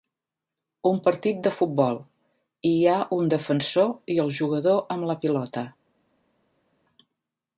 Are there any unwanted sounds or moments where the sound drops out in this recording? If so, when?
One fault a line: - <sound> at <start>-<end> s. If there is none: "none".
none